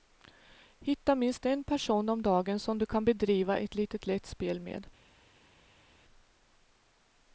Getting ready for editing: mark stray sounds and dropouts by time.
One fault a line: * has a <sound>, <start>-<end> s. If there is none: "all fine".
all fine